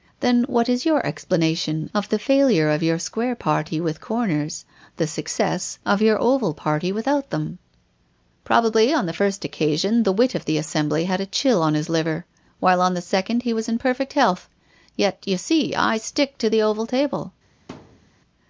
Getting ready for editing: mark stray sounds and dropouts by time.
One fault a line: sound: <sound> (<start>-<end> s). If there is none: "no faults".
sound: thud (17.7-18.1 s)